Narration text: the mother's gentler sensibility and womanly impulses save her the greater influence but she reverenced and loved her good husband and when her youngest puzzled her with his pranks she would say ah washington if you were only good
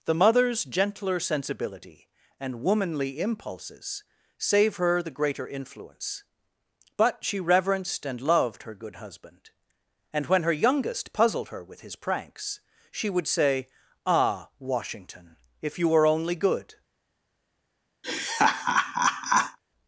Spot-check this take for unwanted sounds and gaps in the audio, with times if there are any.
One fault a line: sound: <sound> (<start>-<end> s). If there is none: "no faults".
sound: laugh (18.0-19.6 s)